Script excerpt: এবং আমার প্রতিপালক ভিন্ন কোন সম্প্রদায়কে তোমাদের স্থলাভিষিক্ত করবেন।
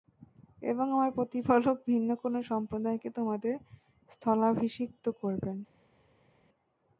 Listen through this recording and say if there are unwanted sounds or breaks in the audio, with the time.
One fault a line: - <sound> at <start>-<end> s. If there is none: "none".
none